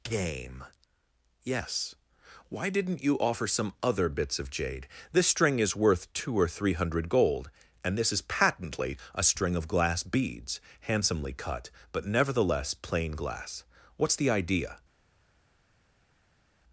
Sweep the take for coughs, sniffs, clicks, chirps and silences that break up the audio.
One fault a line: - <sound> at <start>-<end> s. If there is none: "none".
none